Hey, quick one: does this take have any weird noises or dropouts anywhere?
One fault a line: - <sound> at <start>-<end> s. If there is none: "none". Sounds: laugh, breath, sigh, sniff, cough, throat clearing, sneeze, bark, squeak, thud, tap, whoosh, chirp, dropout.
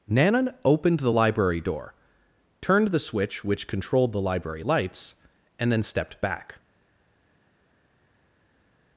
none